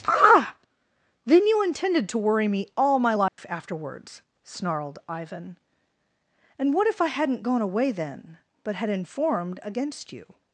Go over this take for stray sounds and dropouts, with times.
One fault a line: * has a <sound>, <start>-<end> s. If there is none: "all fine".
* has a dropout, 3.3-3.4 s